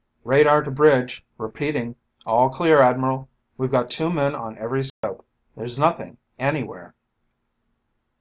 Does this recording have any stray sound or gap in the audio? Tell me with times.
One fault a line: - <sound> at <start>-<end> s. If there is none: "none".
- dropout at 4.9-5.0 s